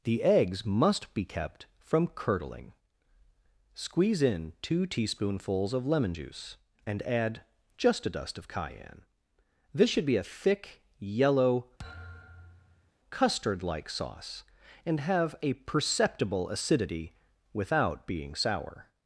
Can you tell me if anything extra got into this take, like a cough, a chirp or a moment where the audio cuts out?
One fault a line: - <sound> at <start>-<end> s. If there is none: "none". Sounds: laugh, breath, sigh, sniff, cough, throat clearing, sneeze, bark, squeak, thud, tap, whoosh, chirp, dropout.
- thud at 11.8-12.9 s